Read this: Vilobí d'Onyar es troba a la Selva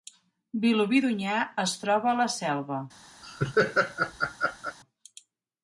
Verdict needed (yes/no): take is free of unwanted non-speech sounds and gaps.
no